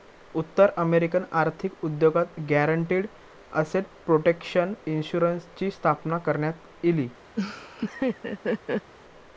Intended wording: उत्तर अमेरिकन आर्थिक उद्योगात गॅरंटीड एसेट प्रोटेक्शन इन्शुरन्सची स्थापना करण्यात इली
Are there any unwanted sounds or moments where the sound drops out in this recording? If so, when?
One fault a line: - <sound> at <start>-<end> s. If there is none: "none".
- laugh at 7.4-8.9 s